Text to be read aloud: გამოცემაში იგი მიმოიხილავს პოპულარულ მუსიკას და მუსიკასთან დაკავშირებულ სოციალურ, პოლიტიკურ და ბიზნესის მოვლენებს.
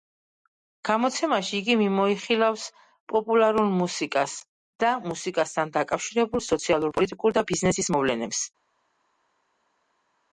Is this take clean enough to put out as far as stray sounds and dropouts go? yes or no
yes